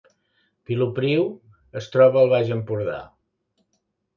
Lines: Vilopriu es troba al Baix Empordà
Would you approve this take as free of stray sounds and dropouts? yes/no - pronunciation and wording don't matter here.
yes